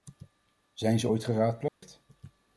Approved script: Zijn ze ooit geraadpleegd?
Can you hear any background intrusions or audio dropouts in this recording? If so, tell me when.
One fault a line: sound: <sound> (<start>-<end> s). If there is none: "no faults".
sound: dropout (1.7-1.8 s)